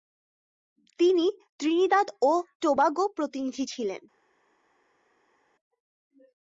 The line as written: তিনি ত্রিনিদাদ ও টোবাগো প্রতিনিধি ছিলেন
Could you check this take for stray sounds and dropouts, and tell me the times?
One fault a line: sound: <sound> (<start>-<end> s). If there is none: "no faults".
no faults